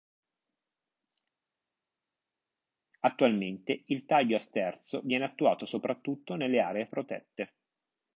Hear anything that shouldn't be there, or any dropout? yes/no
no